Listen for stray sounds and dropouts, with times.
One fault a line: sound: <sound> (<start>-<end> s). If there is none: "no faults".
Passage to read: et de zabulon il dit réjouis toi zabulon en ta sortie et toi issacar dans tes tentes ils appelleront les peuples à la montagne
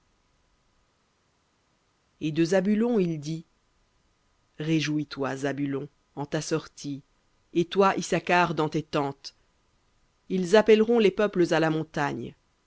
no faults